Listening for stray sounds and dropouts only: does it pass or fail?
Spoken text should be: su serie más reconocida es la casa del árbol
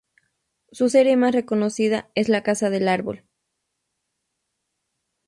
pass